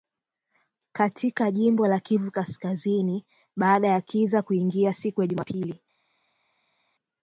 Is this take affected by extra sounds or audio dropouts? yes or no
no